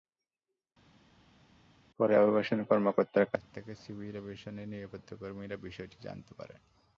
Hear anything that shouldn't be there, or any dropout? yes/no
no